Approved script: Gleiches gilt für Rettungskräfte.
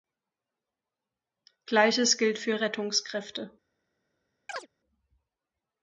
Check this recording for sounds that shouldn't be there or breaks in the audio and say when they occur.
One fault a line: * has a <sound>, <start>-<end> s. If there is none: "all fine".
* has a chirp, 4.5-4.7 s